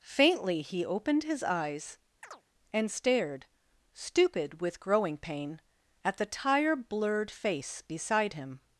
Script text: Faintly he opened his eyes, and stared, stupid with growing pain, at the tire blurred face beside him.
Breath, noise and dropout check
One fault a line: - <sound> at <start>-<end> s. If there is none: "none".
- chirp at 2.2-2.4 s